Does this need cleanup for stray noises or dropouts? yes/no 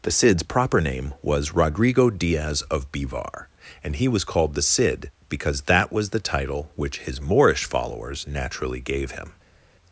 no